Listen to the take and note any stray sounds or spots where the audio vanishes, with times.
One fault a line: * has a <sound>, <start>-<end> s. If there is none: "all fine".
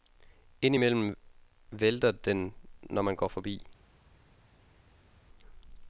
all fine